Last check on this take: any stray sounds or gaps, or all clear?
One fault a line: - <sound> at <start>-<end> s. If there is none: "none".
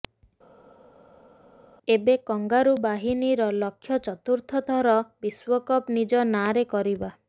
none